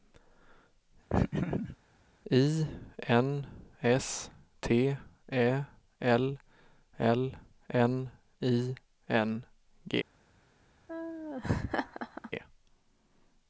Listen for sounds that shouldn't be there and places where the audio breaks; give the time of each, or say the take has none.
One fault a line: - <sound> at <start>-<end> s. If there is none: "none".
- laugh at 1.1-1.8 s
- laugh at 10.9-12.3 s